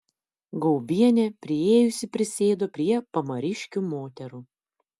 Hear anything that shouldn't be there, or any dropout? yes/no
no